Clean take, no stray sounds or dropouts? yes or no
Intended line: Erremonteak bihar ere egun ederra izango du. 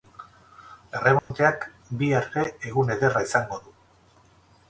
no